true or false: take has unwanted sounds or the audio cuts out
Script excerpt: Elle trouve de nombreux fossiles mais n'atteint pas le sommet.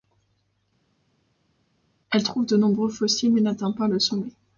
false